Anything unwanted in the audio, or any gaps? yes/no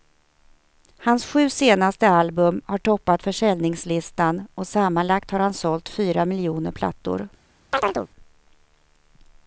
yes